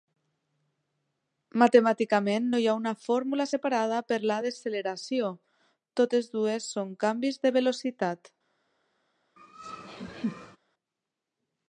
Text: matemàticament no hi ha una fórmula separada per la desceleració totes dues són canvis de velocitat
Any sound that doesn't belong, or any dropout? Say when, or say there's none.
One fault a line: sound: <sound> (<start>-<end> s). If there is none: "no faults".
sound: laugh (9.4-10.6 s)